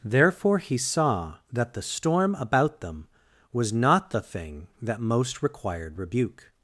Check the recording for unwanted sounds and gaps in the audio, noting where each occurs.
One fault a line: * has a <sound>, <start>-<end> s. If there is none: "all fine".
all fine